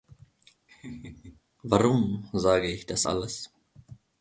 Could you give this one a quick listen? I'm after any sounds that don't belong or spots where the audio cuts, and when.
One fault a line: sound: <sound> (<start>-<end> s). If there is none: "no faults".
sound: laugh (0.7-1.4 s)